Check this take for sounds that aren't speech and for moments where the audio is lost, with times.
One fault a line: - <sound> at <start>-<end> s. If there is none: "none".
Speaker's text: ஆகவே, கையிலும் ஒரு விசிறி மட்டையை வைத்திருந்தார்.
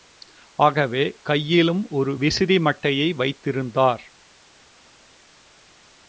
none